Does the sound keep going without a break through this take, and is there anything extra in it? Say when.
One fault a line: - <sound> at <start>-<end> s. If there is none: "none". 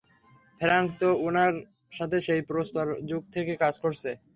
none